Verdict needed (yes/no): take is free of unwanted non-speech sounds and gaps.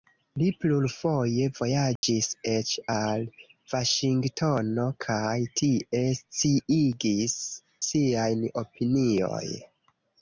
no